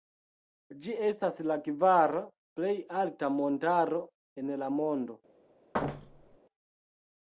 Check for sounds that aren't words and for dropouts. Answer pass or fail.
fail